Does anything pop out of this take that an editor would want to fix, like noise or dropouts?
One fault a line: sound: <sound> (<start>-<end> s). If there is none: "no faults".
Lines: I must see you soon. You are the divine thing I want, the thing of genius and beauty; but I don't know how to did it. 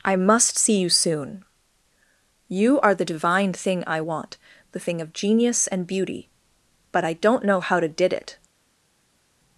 no faults